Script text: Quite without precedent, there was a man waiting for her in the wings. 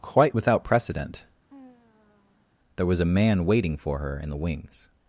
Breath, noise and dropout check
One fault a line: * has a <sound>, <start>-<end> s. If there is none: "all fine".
* has a sigh, 1.5-2.5 s